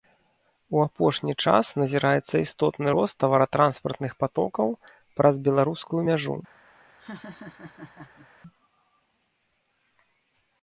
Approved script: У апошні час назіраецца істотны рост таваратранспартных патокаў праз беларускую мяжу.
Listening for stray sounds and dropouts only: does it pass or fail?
fail